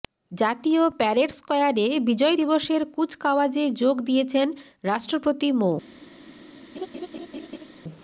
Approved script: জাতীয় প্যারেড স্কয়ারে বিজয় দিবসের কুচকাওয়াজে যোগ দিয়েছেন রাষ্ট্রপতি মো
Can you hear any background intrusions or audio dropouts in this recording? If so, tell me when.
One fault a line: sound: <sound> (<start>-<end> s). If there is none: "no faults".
sound: laugh (6.7-7.7 s)